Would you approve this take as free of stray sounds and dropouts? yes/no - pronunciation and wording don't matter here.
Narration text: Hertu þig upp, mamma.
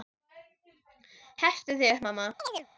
no